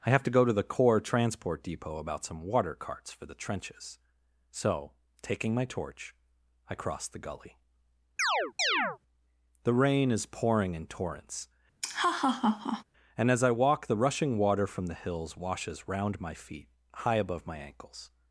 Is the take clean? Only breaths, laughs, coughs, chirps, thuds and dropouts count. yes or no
no